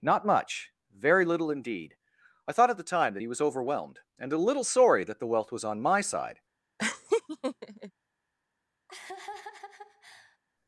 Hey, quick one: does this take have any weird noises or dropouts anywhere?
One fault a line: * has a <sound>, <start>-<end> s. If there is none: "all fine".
* has a laugh, 6.8-7.9 s
* has a laugh, 8.9-10.4 s